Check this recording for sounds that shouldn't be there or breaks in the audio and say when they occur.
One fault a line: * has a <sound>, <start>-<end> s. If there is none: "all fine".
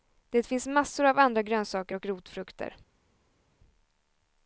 all fine